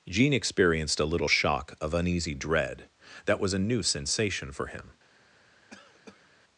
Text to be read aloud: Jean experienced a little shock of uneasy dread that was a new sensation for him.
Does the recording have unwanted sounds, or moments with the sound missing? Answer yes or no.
yes